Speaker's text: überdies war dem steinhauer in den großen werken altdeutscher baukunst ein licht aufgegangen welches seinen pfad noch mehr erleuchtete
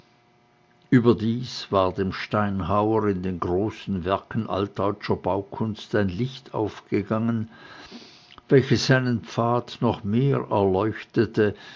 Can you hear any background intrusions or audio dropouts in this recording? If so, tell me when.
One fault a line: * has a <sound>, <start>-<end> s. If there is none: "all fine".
all fine